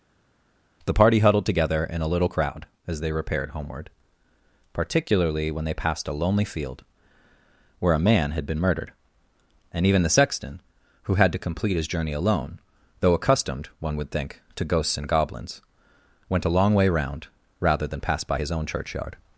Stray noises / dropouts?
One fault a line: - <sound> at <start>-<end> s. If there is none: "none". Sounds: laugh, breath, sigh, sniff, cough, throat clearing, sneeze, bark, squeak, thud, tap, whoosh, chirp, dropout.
none